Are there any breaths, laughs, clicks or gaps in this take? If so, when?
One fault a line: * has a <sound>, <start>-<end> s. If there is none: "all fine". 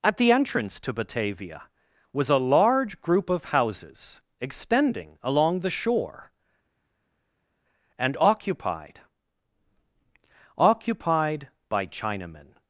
all fine